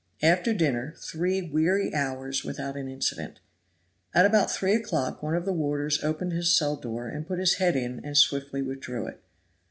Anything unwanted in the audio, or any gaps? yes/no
no